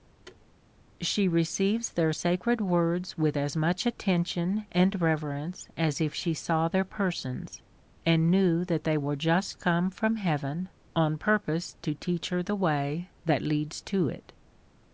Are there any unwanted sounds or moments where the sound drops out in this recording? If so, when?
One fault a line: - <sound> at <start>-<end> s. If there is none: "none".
- thud at 0.3-0.5 s